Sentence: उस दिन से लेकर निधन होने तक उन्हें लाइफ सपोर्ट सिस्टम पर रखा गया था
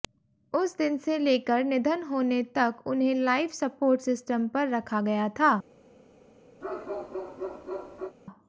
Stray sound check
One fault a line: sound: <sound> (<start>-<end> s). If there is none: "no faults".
sound: bark (6.6-8.2 s)